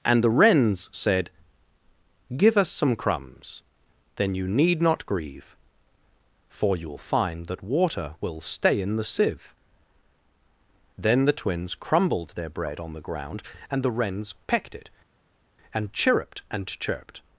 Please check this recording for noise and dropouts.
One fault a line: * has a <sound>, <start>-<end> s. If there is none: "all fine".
all fine